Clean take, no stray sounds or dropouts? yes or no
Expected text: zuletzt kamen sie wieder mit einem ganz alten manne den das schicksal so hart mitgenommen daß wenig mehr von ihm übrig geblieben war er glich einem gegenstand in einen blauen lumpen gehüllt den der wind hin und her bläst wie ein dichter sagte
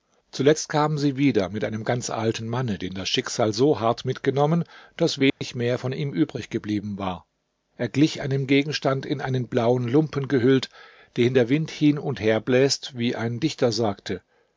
no